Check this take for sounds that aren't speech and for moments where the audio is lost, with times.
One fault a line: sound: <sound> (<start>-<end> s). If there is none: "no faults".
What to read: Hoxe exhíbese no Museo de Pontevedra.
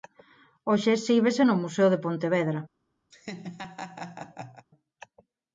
sound: laugh (3.1-4.7 s)